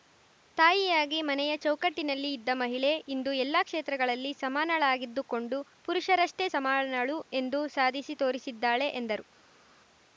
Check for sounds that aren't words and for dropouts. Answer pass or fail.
pass